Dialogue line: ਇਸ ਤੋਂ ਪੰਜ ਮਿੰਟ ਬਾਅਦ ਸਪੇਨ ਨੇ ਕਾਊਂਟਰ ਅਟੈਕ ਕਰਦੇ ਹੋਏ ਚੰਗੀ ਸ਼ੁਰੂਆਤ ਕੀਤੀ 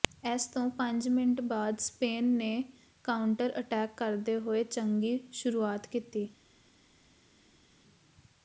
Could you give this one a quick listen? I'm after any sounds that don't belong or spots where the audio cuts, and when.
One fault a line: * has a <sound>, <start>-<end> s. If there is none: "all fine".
all fine